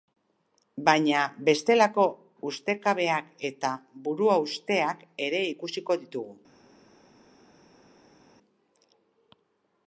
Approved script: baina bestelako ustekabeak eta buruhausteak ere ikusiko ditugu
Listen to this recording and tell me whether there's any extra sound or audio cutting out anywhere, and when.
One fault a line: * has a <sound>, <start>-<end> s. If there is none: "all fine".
all fine